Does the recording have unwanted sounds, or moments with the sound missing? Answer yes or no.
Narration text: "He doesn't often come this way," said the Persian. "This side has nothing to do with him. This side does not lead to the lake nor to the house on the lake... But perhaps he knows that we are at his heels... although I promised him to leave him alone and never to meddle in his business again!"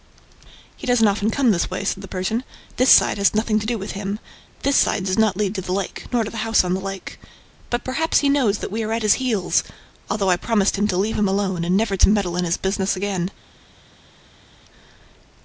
no